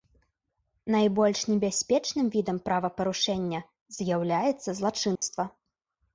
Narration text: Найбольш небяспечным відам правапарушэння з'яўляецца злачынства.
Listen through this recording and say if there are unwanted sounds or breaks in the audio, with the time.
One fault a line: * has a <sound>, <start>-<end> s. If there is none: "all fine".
* has a dropout, 5.2-5.2 s